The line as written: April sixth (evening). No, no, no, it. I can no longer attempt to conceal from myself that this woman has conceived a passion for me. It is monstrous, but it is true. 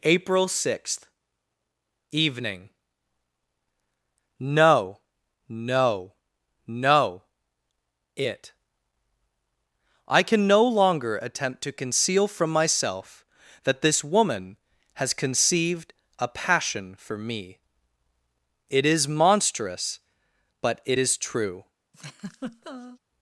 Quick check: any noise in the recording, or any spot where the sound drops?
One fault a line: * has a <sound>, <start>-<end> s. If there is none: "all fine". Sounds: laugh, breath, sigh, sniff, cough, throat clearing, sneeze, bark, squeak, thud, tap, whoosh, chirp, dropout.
* has a laugh, 21.9-23.0 s